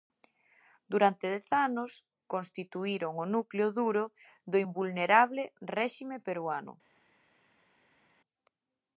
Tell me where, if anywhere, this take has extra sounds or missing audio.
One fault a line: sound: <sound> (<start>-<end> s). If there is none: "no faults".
no faults